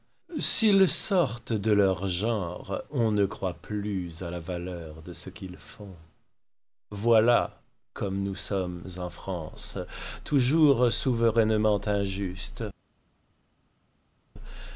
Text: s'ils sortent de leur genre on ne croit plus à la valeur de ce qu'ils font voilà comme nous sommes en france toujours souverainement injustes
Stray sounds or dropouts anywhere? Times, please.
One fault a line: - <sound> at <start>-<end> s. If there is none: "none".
none